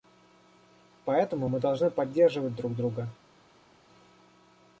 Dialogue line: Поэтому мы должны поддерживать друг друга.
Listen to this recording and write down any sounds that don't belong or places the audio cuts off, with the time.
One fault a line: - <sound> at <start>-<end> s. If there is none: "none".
none